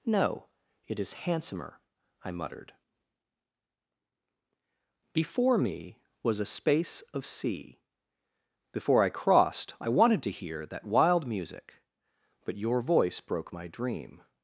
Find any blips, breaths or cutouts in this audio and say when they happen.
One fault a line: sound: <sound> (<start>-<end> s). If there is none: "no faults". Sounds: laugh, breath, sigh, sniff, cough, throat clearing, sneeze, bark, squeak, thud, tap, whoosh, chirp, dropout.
no faults